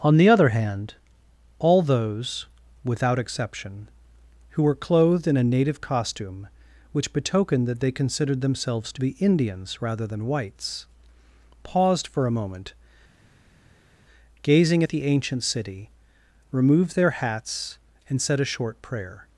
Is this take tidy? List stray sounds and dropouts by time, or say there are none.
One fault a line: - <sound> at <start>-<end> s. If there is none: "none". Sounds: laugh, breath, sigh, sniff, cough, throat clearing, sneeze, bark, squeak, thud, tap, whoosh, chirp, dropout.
none